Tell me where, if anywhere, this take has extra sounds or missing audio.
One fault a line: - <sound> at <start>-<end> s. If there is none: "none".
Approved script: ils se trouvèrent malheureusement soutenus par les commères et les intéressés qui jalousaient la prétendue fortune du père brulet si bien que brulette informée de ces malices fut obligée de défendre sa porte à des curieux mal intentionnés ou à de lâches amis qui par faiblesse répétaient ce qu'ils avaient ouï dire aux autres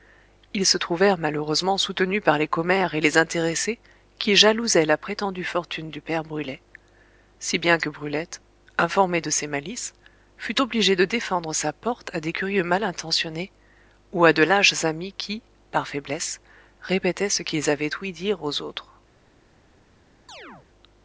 - chirp at 20.3-20.7 s